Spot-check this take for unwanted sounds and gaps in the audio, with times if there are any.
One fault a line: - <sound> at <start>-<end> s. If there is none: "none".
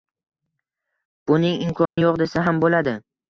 - dropout at 1.9-2.0 s